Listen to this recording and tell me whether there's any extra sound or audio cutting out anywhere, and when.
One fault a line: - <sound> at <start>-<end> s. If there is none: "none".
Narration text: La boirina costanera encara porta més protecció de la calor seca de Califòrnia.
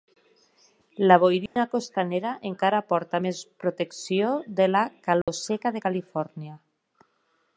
- dropout at 1.5-1.6 s
- dropout at 5.2-5.3 s